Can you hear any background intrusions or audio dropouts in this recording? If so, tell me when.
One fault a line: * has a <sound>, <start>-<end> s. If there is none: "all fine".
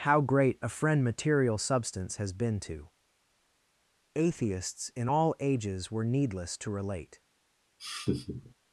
* has a laugh, 7.8-8.5 s